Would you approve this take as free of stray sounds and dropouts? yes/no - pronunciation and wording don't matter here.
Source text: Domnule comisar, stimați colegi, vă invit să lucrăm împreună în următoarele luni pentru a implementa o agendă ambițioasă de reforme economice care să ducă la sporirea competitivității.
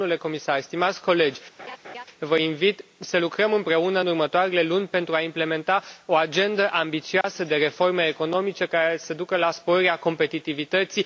no